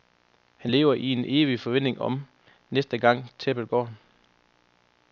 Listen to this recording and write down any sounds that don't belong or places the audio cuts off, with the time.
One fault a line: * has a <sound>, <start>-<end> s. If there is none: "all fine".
all fine